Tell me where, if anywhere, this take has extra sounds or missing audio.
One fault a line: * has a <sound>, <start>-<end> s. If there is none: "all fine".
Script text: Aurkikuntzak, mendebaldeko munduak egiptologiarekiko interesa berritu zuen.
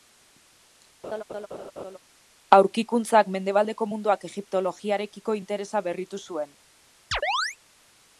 * has a laugh, 1.0-2.0 s
* has a chirp, 7.1-7.6 s